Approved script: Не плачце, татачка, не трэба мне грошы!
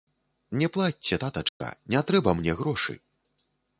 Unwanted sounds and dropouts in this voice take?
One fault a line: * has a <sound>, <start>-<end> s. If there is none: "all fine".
* has a dropout, 1.5-1.6 s